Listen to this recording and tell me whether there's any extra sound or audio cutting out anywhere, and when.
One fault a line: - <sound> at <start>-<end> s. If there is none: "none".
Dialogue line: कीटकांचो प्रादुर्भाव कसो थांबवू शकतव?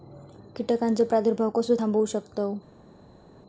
none